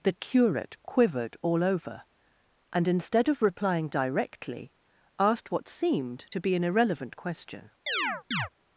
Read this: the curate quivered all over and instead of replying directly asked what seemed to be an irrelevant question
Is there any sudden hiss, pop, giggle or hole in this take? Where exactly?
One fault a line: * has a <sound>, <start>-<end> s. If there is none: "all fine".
* has a chirp, 7.9-8.5 s